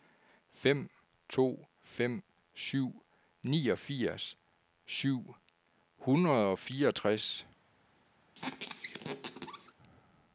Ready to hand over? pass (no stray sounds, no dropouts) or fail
fail